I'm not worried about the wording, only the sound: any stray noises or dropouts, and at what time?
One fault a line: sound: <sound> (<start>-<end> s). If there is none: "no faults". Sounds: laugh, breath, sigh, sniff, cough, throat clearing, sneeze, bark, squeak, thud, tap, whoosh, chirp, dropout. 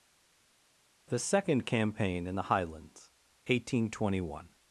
no faults